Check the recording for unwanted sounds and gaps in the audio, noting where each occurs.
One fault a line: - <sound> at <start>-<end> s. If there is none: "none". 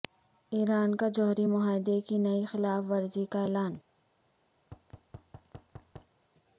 - thud at 4.6-6.2 s